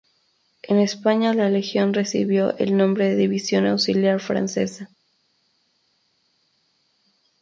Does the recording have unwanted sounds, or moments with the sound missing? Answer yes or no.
no